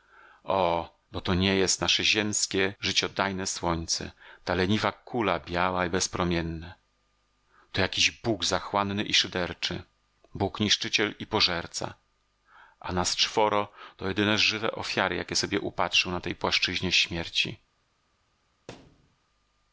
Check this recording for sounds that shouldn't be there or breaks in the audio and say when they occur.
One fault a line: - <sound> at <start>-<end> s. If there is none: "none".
- thud at 18.7-19.2 s